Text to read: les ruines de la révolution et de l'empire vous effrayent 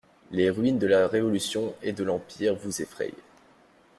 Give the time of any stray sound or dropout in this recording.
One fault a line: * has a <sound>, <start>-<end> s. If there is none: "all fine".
all fine